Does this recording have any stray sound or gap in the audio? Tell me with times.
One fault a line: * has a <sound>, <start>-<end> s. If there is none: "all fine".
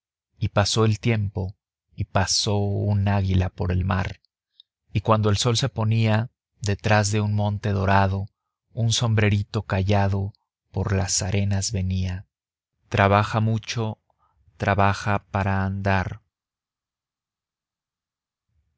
all fine